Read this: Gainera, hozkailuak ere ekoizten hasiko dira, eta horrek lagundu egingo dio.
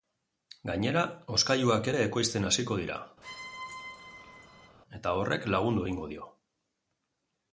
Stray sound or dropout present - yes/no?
yes